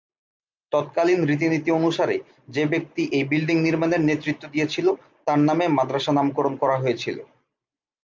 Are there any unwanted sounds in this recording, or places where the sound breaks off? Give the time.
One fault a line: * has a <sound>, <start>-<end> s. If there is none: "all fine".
all fine